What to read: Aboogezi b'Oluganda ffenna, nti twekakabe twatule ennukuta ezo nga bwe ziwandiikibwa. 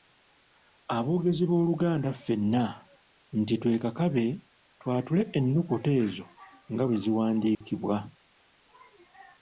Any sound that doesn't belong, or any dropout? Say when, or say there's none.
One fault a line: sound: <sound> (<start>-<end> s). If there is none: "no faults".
sound: dropout (7.5-7.6 s)